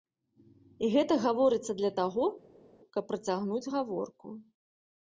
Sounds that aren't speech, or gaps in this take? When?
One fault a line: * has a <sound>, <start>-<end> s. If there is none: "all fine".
all fine